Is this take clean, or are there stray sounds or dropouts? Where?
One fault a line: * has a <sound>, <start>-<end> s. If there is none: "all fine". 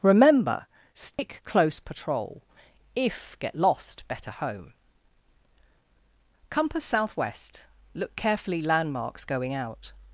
* has a dropout, 1.1-1.2 s